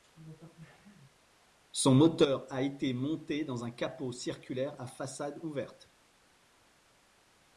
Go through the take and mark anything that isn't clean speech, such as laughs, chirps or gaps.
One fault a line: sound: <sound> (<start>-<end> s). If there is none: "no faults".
no faults